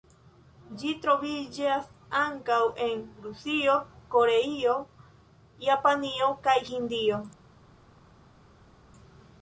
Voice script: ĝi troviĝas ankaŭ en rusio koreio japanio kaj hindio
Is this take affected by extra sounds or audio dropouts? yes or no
no